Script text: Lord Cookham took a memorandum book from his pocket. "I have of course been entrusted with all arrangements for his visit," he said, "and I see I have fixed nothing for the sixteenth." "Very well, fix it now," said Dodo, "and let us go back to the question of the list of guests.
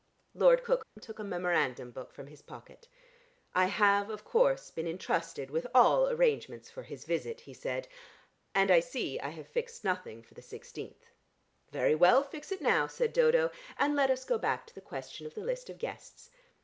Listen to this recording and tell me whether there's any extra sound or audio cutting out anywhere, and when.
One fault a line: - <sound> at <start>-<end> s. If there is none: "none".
- dropout at 0.8-1.0 s